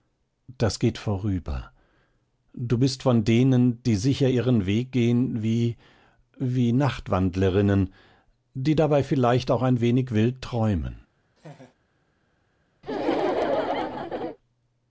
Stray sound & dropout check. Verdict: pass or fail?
fail